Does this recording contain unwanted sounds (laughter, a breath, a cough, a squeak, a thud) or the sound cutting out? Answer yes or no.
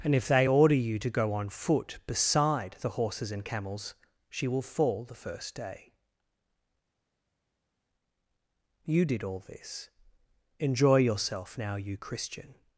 no